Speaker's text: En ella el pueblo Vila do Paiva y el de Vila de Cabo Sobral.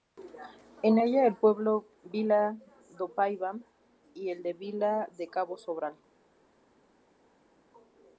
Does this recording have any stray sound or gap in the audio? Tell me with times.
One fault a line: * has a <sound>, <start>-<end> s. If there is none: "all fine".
all fine